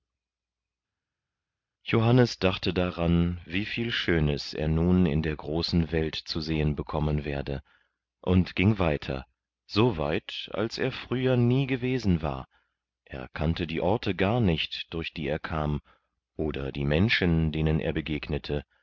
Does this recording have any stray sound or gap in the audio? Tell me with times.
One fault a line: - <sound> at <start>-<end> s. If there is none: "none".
none